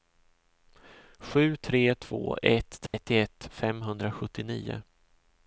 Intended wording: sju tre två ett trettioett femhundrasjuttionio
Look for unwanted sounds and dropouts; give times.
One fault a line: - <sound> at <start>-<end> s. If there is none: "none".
- dropout at 2.9-2.9 s